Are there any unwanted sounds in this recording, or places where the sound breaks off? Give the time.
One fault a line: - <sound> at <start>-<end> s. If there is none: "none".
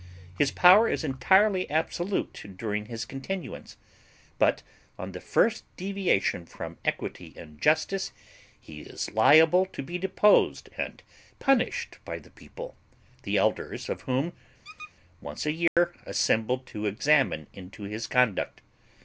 - squeak at 14.6-14.9 s
- dropout at 15.7-15.8 s